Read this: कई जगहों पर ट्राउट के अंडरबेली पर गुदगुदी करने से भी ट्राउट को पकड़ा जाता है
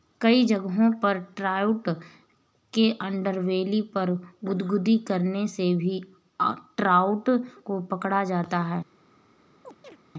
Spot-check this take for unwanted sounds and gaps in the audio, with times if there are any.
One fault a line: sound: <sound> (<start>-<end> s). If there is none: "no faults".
sound: chirp (9.6-10.0 s)